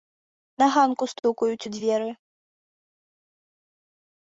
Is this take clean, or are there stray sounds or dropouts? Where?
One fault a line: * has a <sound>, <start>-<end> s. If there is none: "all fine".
all fine